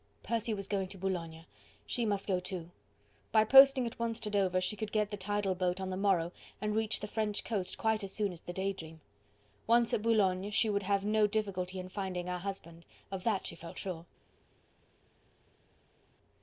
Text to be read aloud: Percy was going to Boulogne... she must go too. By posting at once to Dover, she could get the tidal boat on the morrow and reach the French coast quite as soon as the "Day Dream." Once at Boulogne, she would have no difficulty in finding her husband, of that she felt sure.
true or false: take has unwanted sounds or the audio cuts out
false